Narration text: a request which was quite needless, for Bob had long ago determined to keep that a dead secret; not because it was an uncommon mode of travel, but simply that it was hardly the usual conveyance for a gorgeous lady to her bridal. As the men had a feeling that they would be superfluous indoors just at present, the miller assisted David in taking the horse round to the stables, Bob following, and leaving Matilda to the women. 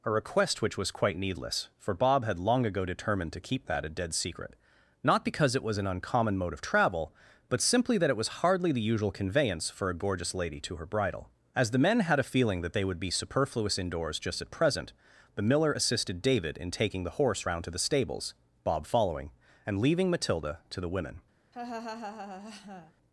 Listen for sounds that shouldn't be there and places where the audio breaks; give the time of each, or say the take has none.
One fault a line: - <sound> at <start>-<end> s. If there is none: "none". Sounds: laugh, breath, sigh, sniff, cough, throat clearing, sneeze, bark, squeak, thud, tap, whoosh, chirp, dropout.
- laugh at 21.5-22.9 s